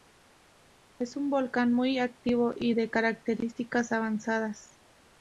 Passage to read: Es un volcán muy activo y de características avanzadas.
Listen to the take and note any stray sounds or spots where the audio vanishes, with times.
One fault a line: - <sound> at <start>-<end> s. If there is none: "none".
none